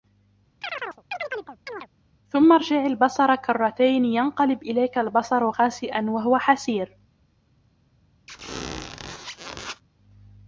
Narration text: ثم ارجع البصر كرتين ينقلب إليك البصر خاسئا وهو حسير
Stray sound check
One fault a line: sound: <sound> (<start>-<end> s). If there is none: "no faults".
sound: chirp (0.6-1.9 s)
sound: squeak (8.3-9.8 s)